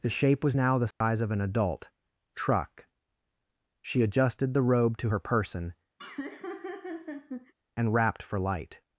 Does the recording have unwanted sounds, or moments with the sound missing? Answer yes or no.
yes